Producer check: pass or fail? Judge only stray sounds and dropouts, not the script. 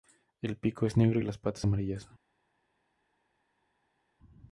pass